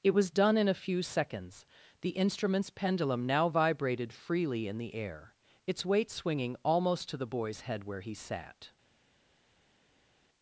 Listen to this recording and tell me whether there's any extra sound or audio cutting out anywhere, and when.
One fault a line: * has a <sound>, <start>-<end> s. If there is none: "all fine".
all fine